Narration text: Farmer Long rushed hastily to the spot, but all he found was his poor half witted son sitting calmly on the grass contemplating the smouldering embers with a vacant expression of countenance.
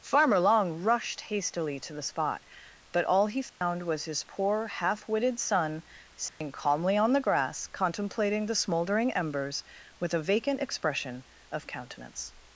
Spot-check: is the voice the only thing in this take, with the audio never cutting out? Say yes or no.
no